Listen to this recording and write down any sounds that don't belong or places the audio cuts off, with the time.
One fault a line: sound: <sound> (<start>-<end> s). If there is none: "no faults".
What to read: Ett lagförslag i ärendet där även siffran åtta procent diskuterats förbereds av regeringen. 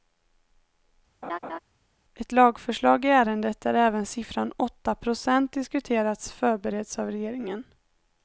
sound: laugh (1.2-1.6 s)